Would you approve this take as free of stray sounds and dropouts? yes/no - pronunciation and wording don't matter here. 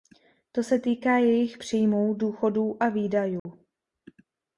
no